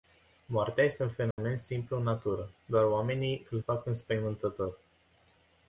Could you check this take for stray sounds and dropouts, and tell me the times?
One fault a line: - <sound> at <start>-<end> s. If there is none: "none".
- dropout at 1.3-1.4 s